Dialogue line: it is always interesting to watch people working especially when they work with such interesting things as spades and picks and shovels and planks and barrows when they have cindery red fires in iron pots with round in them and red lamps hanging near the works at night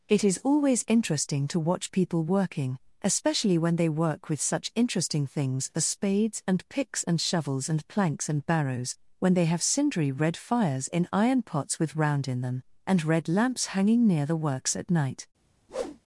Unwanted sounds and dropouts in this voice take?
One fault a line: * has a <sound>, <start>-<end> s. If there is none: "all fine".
* has a whoosh, 15.7-16.0 s